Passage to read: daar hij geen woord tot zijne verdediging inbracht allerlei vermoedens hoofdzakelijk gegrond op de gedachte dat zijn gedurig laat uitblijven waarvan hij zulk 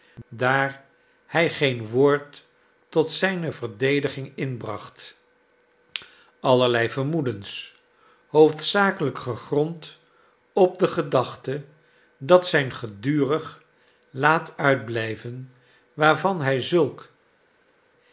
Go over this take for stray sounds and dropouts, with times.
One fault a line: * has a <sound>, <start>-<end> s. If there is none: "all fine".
all fine